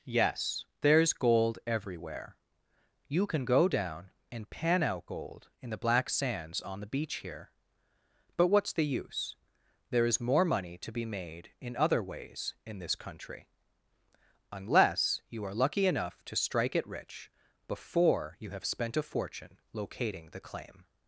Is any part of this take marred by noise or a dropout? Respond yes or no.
no